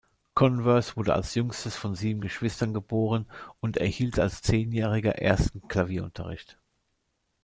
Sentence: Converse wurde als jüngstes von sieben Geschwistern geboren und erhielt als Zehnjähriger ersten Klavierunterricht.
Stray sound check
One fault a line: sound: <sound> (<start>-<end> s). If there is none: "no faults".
no faults